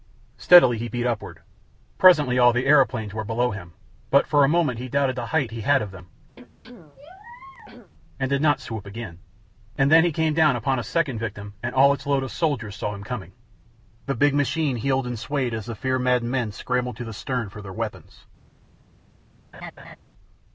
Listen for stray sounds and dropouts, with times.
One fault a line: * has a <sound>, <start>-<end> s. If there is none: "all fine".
* has a throat clearing, 6.4-7.9 s
* has a laugh, 19.5-20.0 s